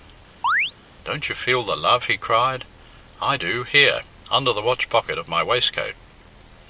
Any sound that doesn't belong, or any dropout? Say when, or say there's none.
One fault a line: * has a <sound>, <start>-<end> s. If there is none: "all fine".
* has a chirp, 0.4-0.7 s